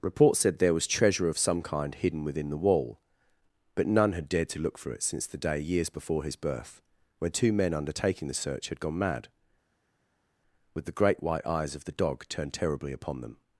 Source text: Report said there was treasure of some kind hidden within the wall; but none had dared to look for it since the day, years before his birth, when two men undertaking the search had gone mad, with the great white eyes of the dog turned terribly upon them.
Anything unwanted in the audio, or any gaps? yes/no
no